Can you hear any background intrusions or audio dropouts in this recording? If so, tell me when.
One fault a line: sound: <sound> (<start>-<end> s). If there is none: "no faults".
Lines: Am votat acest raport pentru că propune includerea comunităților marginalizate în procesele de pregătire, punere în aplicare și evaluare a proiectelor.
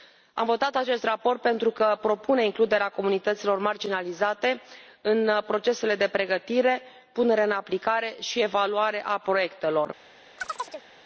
sound: chirp (10.4-10.9 s)